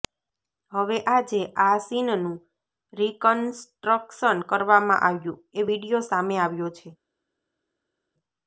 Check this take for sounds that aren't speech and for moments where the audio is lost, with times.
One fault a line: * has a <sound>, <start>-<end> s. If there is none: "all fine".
all fine